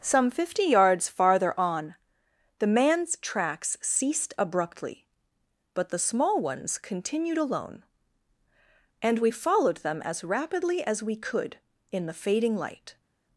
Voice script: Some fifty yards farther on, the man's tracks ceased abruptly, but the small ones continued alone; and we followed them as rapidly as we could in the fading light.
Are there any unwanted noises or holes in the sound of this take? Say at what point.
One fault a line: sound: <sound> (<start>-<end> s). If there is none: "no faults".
no faults